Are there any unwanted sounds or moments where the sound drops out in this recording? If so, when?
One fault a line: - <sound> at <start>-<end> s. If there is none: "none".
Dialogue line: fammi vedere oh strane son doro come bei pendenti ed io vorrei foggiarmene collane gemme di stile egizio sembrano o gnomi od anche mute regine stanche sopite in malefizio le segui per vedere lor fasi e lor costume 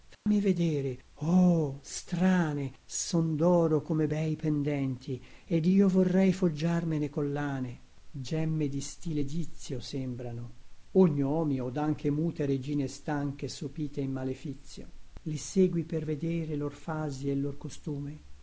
- dropout at 0.1-0.3 s